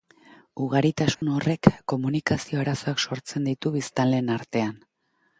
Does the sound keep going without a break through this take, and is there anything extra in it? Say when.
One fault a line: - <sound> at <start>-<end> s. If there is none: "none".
- dropout at 1.1-1.2 s